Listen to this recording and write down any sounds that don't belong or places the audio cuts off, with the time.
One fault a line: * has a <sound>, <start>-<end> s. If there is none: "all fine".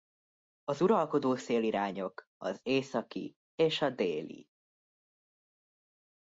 all fine